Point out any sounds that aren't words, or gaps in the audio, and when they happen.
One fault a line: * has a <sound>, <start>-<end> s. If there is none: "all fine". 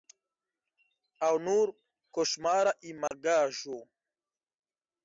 * has a dropout, 3.1-3.1 s